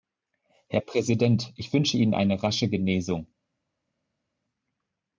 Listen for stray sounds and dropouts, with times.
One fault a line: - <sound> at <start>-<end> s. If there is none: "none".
none